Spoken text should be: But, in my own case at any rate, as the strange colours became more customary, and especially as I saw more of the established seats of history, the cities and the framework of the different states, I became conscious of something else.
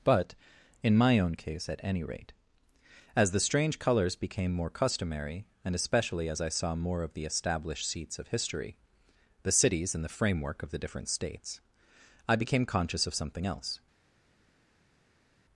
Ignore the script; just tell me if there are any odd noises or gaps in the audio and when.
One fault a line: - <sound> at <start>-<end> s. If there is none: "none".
none